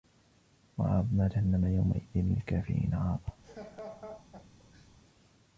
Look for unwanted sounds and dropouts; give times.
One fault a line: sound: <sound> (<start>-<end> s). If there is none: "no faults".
sound: laugh (3.4-4.9 s)